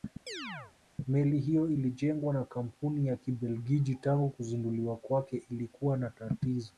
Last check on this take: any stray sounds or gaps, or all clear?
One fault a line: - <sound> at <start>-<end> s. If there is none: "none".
- chirp at 0.3-0.7 s